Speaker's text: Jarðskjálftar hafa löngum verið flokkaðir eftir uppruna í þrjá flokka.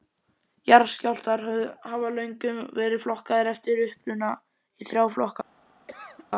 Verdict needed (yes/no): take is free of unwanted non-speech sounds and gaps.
no